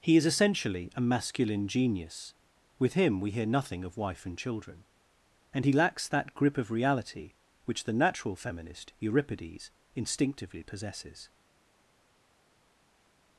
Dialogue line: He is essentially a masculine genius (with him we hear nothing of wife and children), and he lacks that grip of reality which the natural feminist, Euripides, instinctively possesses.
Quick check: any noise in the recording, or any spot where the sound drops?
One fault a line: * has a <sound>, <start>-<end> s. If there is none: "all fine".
all fine